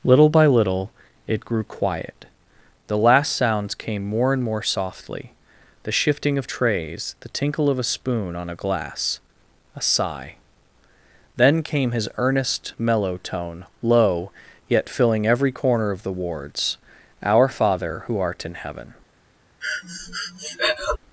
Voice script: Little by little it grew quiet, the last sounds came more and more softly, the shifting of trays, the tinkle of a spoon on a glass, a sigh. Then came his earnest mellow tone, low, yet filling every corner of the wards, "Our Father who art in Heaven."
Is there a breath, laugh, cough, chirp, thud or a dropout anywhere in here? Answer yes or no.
yes